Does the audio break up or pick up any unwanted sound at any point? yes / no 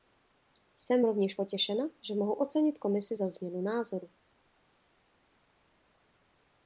no